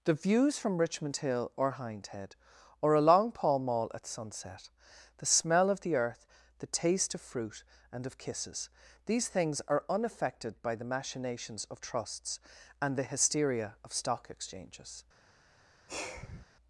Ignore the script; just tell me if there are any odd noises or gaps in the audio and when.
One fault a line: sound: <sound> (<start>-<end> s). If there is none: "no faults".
sound: sigh (15.9-16.5 s)